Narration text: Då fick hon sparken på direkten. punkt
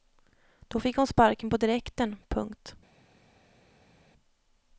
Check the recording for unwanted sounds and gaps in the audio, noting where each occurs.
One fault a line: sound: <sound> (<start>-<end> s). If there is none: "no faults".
no faults